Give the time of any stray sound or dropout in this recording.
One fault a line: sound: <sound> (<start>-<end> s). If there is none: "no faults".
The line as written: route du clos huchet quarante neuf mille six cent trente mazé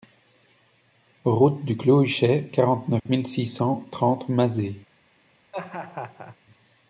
sound: dropout (3.0-3.1 s)
sound: laugh (5.5-6.4 s)